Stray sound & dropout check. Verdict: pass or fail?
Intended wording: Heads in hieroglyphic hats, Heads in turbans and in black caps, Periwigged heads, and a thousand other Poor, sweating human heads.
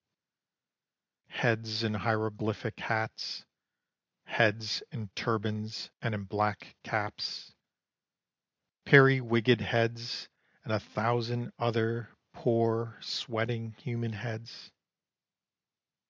pass